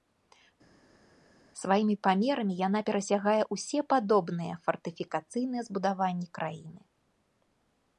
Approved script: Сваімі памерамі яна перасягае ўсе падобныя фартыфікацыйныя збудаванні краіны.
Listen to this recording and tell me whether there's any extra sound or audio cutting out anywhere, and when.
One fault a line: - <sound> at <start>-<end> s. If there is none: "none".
none